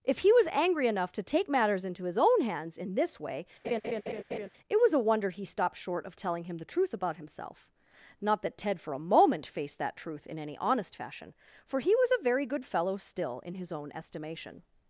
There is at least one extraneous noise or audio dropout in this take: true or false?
true